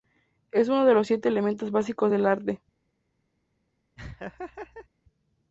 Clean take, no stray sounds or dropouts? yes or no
no